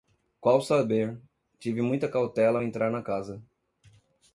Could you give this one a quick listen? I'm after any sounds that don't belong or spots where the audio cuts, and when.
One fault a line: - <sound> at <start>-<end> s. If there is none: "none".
none